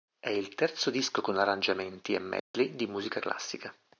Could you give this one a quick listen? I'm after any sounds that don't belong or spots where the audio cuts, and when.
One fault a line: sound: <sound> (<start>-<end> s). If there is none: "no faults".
sound: dropout (2.4-2.5 s)